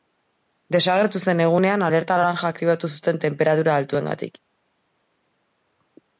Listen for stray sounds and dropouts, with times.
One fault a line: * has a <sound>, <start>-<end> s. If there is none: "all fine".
all fine